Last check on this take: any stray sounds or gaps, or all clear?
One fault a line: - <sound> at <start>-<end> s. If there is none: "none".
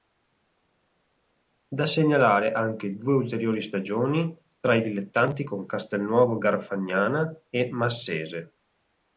none